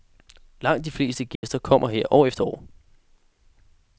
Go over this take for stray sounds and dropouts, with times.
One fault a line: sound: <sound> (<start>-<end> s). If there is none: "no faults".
sound: dropout (1.4-1.4 s)